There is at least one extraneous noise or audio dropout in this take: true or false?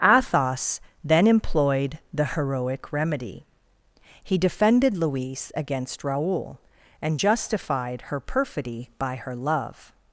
false